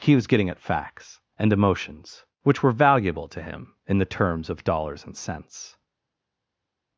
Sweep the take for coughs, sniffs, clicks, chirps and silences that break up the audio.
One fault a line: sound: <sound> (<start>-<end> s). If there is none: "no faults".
no faults